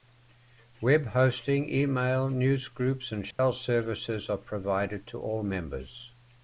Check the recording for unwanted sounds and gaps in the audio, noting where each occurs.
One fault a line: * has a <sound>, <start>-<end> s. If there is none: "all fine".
* has a dropout, 3.3-3.4 s